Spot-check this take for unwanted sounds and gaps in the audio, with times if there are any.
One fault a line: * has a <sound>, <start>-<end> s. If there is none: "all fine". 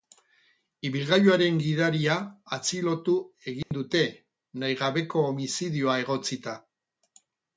* has a dropout, 3.6-3.7 s